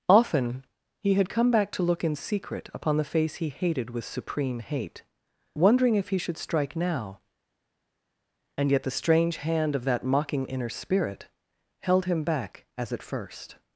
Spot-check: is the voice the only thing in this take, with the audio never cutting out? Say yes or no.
yes